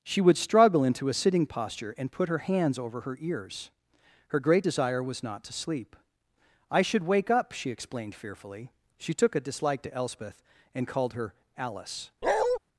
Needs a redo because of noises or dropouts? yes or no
yes